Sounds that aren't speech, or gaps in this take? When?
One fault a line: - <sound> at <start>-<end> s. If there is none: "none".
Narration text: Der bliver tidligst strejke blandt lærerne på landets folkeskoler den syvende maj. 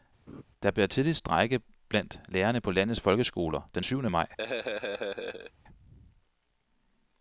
- laugh at 0.3-0.4 s
- laugh at 4.4-5.5 s